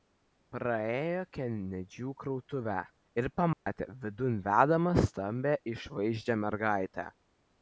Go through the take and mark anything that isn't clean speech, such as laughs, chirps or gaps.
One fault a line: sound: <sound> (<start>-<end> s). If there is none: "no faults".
sound: dropout (3.5-3.7 s)